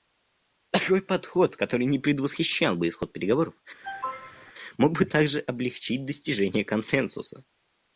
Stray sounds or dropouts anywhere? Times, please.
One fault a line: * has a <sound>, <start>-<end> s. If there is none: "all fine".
* has a cough, 3.8-4.5 s